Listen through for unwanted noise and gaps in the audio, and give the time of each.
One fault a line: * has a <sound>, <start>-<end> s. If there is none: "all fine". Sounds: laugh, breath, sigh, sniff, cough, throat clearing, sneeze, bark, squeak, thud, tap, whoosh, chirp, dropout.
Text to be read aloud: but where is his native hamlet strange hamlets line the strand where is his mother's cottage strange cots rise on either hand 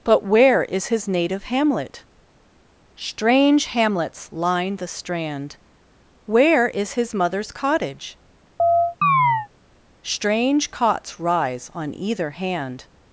* has a chirp, 8.6-9.5 s